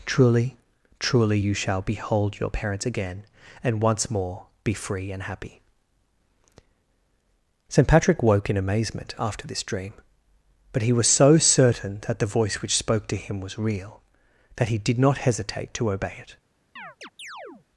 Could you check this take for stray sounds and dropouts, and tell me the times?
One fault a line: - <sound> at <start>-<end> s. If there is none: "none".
- chirp at 16.8-17.7 s